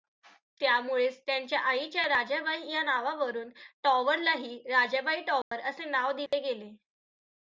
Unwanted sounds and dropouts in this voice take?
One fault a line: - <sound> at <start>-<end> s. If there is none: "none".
- dropout at 5.4-5.5 s
- dropout at 6.3-6.3 s